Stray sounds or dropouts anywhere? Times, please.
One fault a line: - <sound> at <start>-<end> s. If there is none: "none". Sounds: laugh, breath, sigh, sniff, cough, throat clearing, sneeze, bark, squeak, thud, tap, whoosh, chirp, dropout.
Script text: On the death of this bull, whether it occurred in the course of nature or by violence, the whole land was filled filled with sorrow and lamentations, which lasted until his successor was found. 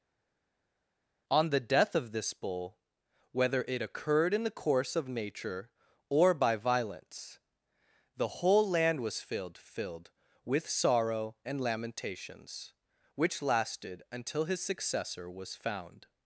none